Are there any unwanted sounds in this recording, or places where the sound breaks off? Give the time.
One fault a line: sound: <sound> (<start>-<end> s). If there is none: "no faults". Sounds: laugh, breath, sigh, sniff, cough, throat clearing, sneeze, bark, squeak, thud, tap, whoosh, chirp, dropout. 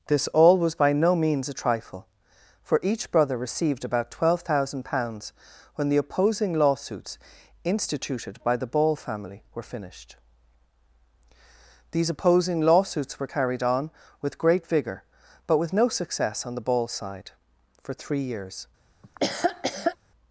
sound: laugh (19.0-20.0 s)